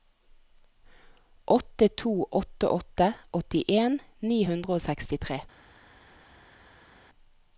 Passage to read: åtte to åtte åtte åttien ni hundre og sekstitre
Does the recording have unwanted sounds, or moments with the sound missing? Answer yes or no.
no